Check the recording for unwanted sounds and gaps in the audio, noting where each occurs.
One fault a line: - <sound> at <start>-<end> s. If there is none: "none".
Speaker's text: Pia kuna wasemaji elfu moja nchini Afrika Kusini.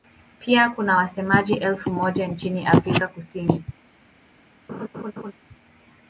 - laugh at 4.7-5.3 s